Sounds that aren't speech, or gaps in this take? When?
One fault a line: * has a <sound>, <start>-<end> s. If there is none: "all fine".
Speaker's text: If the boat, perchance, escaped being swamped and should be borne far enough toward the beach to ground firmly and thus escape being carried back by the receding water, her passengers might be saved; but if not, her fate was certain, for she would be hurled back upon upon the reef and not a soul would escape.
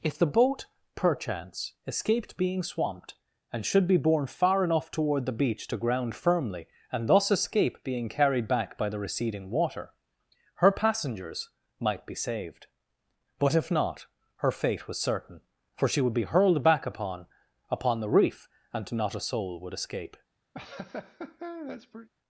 * has a laugh, 20.5-22.1 s